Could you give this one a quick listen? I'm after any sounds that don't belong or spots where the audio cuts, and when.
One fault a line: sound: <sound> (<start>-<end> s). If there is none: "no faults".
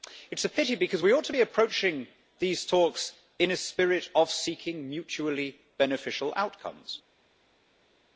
no faults